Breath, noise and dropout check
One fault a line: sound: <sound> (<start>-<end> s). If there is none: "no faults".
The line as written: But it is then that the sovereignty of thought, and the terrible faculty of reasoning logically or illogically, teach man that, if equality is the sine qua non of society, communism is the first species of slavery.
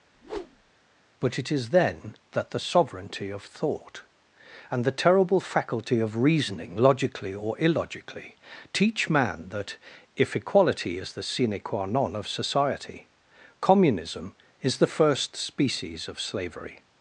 sound: whoosh (0.1-0.7 s)